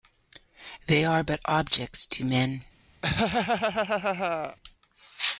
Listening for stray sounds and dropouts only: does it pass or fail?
fail